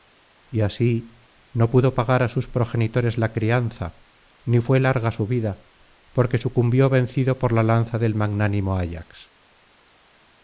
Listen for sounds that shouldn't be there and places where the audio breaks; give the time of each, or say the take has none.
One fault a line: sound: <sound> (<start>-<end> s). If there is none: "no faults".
no faults